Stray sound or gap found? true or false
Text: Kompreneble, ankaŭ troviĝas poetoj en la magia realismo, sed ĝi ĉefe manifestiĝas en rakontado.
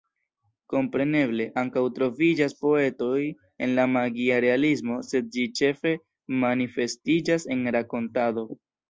false